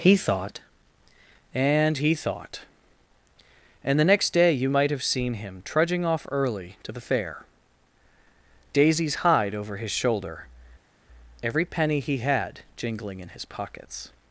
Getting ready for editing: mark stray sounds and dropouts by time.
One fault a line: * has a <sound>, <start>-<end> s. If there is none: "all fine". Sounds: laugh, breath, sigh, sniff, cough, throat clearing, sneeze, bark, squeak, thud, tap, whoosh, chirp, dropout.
all fine